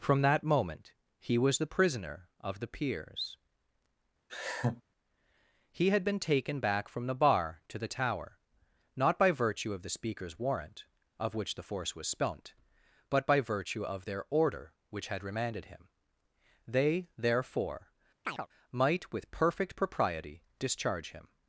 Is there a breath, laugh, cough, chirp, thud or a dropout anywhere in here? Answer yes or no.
yes